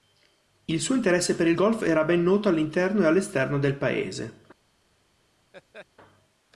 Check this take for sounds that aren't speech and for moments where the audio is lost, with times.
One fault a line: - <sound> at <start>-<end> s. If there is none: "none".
- laugh at 5.5-5.9 s